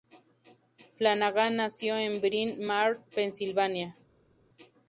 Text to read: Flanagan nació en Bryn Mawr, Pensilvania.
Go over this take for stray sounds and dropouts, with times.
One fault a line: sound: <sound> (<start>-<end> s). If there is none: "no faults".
no faults